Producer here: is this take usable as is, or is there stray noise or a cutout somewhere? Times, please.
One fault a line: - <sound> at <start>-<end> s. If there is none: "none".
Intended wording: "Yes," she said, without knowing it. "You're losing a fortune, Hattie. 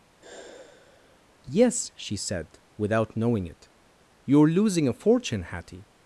- sigh at 0.2-1.3 s